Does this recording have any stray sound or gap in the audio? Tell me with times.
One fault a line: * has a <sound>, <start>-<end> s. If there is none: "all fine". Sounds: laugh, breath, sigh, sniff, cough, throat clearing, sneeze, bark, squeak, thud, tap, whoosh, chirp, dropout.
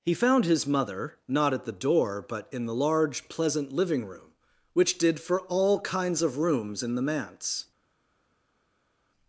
all fine